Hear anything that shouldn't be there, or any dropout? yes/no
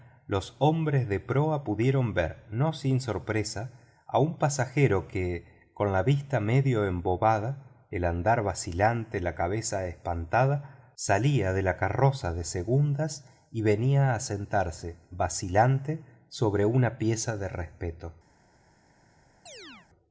yes